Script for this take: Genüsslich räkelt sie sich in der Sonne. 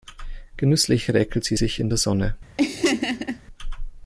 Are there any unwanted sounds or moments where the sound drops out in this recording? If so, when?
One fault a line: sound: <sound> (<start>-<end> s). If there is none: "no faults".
sound: laugh (2.6-3.4 s)